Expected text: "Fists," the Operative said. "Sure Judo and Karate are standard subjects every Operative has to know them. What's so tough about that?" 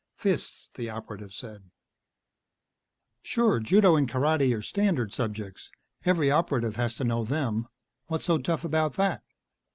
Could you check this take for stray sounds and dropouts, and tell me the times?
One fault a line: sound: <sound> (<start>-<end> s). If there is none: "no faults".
no faults